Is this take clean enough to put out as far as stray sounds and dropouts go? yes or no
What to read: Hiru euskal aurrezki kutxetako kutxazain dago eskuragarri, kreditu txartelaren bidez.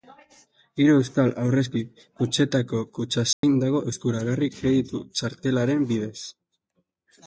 no